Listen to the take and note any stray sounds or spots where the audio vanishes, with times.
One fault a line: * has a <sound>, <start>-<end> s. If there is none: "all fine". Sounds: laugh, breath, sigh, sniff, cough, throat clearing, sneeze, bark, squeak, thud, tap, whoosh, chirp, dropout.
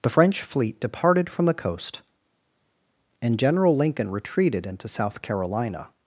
all fine